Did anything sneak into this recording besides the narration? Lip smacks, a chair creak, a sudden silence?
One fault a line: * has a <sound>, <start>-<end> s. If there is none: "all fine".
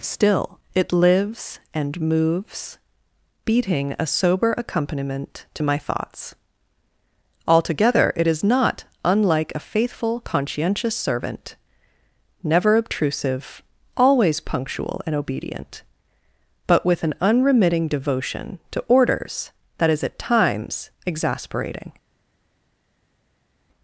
all fine